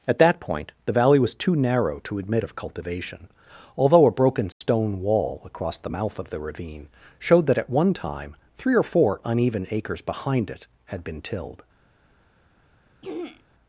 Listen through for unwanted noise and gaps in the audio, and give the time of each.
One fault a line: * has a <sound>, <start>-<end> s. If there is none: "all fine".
* has a dropout, 4.5-4.6 s
* has a throat clearing, 13.0-13.4 s